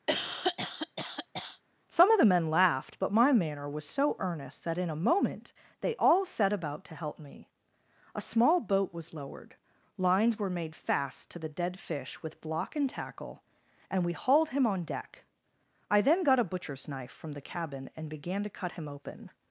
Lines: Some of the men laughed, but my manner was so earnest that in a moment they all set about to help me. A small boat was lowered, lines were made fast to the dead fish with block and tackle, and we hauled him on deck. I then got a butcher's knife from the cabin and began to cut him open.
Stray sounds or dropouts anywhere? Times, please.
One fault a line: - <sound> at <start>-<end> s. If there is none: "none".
- cough at 0.1-1.6 s